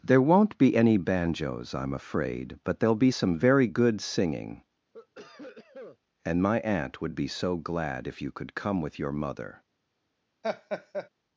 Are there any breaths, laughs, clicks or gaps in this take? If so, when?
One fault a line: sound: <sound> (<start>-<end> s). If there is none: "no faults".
sound: cough (4.9-6.0 s)
sound: laugh (10.4-11.1 s)